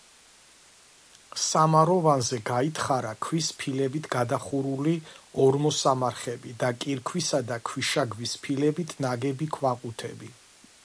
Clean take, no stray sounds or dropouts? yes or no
yes